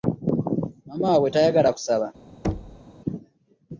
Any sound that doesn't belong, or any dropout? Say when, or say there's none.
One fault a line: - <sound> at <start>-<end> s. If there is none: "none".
- thud at 2.4-2.8 s